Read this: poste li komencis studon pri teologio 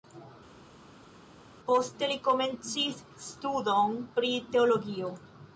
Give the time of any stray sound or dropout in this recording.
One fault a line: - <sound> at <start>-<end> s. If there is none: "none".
none